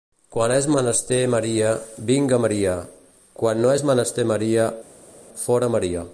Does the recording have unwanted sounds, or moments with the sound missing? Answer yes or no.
no